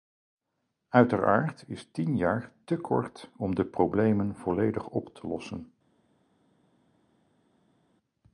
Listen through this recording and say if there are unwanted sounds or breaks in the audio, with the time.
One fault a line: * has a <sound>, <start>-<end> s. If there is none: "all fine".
all fine